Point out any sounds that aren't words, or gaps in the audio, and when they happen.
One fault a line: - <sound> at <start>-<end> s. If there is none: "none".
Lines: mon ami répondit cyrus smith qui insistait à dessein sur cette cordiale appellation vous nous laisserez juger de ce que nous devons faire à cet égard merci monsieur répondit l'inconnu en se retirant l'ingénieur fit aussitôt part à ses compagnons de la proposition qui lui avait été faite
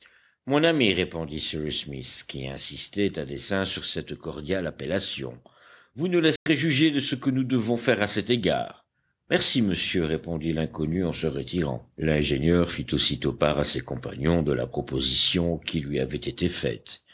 - dropout at 6.4-6.5 s